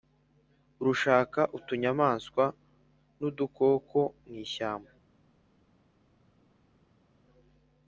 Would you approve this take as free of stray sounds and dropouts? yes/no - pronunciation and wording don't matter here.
yes